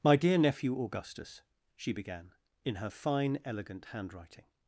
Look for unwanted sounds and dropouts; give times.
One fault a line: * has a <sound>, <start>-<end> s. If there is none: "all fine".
all fine